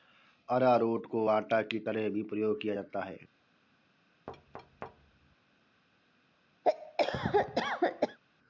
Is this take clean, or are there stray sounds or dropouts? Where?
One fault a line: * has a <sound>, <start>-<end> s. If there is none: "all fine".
* has a thud, 4.3-5.4 s
* has a cough, 6.6-8.2 s